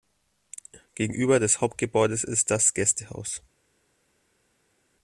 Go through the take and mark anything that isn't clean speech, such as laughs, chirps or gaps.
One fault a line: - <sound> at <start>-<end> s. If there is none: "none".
none